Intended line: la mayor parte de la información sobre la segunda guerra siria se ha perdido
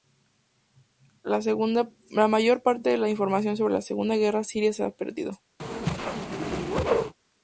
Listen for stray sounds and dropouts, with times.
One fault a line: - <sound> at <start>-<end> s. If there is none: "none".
- whoosh at 5.6-7.1 s